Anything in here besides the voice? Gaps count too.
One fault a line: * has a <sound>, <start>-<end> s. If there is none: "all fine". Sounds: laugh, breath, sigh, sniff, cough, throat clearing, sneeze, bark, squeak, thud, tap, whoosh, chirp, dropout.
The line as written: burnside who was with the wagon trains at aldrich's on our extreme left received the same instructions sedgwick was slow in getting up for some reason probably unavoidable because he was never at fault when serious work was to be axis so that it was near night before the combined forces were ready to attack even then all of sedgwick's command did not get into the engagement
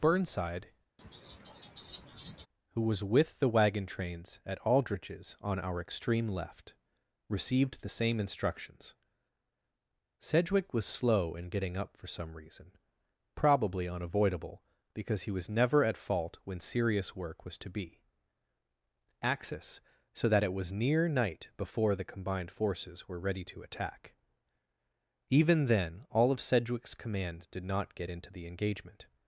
* has a laugh, 1.0-2.5 s